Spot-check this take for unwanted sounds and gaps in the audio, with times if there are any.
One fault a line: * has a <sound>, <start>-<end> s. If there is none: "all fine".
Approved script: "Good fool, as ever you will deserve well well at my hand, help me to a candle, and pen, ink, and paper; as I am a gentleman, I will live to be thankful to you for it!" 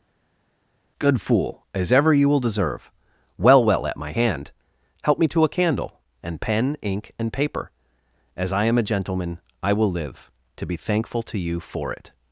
all fine